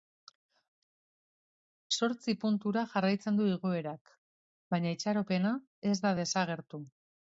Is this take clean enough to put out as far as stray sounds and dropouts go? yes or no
yes